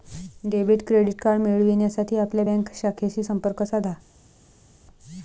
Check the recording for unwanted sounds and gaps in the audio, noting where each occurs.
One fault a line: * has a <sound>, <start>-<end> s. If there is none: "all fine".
all fine